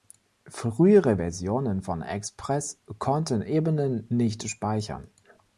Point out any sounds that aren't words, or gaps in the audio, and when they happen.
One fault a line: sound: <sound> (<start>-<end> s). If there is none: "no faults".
no faults